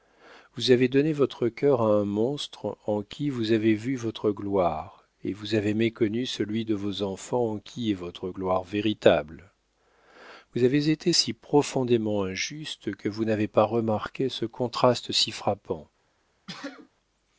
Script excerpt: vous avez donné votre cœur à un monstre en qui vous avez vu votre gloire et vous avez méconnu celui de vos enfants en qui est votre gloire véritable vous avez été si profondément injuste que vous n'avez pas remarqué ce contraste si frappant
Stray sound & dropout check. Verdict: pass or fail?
fail